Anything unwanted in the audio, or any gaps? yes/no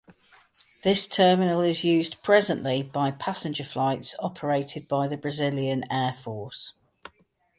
no